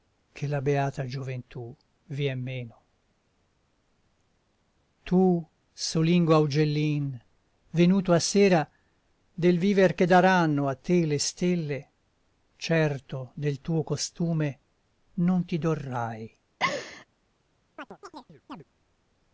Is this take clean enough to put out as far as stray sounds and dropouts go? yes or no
no